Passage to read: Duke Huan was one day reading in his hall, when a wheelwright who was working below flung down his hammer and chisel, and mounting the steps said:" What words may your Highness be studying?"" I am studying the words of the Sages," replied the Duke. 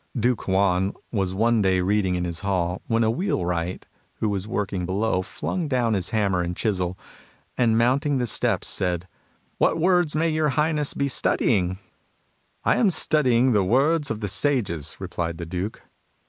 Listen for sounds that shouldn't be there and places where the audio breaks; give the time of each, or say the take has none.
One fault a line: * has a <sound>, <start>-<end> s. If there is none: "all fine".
all fine